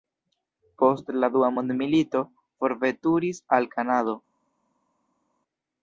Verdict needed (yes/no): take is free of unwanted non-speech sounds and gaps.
yes